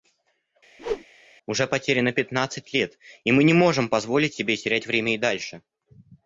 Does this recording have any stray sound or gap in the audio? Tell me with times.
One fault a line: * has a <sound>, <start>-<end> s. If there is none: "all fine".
* has a whoosh, 0.8-1.1 s